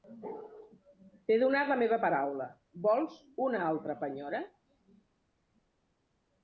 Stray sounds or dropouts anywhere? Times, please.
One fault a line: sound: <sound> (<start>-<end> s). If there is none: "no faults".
no faults